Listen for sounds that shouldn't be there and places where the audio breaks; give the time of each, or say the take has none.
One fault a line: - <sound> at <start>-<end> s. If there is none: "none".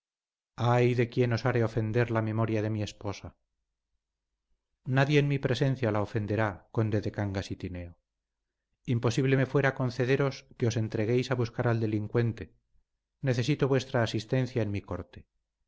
none